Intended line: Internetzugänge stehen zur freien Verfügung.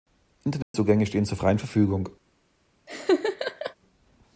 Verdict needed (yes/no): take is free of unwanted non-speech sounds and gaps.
no